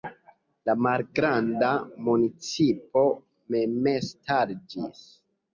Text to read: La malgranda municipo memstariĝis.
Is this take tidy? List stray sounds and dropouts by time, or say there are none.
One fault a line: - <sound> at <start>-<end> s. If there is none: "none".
none